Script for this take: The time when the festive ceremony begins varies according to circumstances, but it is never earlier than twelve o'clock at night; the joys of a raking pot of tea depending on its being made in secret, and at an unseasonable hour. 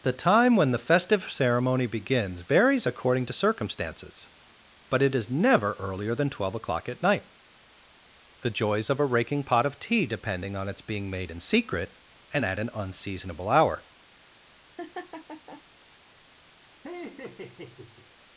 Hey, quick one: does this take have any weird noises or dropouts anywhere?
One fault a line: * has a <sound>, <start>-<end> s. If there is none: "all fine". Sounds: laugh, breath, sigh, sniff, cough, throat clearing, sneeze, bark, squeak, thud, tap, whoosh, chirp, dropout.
* has a laugh, 14.8-15.6 s
* has a laugh, 16.8-18.1 s